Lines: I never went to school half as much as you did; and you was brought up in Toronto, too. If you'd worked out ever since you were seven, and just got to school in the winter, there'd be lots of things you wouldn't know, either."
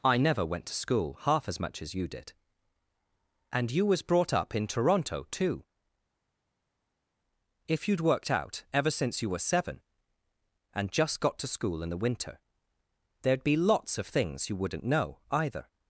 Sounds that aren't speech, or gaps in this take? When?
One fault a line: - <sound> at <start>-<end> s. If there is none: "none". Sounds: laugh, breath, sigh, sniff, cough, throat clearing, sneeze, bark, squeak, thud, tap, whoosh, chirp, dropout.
none